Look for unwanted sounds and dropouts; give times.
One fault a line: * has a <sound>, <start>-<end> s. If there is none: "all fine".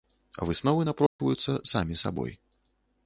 * has a dropout, 1.1-1.2 s